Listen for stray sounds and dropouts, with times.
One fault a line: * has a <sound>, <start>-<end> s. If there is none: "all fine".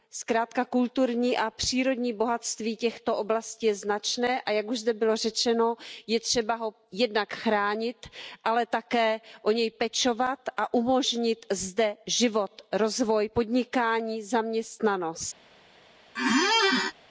* has a squeak, 16.2-16.9 s